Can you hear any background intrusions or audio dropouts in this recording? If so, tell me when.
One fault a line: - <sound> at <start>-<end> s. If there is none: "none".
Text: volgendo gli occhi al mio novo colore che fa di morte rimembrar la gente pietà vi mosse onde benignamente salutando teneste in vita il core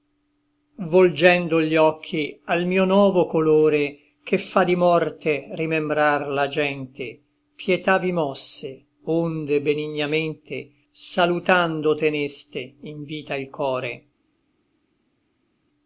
none